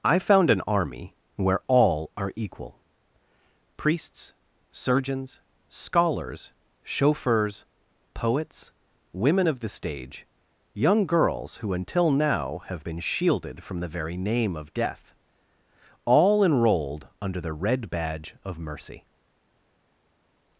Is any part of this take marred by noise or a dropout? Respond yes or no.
no